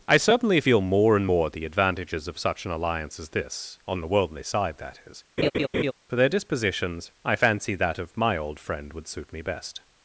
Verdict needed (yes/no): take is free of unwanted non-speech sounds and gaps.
no